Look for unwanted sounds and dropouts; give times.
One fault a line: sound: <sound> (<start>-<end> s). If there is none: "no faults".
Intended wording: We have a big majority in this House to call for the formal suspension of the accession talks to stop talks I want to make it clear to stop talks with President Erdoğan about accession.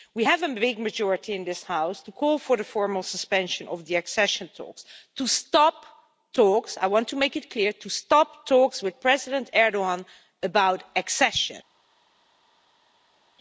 no faults